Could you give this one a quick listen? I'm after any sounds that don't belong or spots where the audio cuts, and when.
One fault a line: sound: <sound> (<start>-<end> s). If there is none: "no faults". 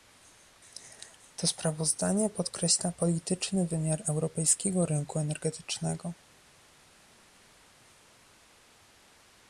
no faults